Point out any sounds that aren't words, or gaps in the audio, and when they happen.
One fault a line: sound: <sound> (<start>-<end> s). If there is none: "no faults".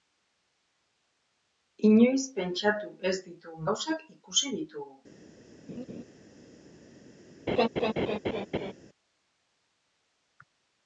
sound: laugh (5.7-6.0 s)
sound: laugh (7.5-8.7 s)